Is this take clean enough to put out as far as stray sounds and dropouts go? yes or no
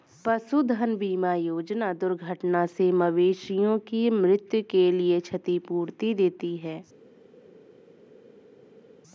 yes